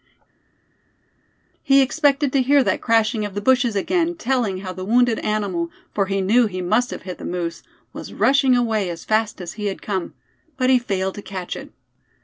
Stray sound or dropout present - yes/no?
no